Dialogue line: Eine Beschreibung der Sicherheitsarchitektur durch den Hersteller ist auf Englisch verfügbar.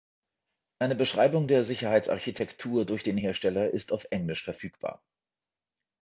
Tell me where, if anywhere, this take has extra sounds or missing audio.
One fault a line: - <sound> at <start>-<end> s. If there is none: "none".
none